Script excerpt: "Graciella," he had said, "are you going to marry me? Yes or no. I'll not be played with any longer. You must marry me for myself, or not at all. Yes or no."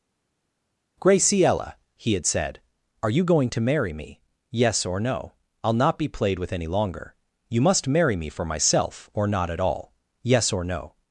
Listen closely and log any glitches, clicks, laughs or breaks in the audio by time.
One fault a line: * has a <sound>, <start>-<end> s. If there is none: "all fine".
all fine